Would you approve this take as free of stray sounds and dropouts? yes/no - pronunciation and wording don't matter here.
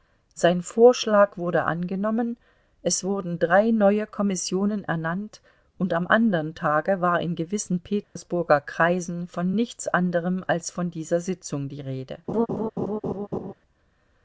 no